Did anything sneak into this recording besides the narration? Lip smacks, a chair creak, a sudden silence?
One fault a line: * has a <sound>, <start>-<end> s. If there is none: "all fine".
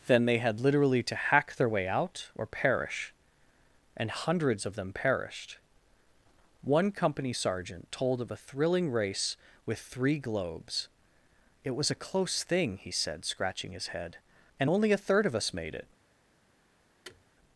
* has a thud, 17.0-17.2 s